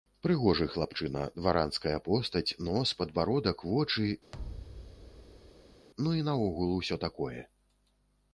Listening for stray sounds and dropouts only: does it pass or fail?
fail